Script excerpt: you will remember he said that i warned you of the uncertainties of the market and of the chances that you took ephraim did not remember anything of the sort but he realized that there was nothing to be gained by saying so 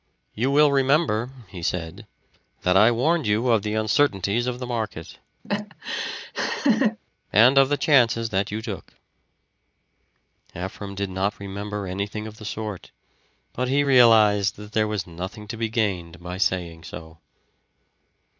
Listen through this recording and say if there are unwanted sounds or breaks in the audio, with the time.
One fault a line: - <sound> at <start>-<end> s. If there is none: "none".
- laugh at 5.4-7.0 s